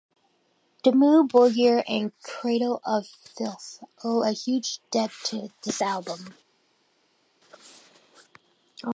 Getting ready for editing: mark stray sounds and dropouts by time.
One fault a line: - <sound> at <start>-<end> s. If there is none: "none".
none